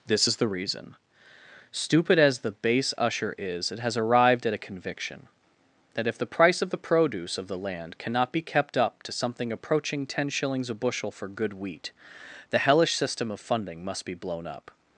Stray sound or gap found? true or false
false